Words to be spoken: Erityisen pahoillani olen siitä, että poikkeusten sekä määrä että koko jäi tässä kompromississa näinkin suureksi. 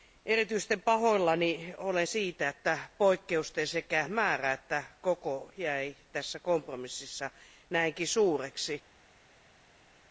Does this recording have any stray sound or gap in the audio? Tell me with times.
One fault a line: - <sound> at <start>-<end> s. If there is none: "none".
none